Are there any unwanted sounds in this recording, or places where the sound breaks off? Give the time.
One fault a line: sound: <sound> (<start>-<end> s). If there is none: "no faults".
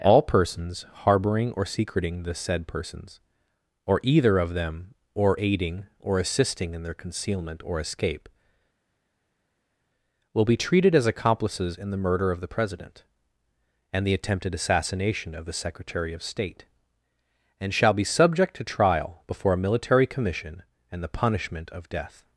no faults